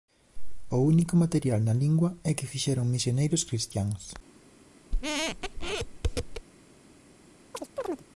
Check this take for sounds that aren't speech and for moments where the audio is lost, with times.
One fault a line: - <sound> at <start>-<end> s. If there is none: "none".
- squeak at 4.9-6.5 s
- chirp at 7.5-8.0 s